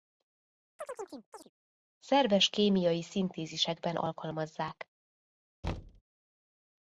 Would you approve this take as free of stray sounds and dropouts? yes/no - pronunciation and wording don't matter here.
no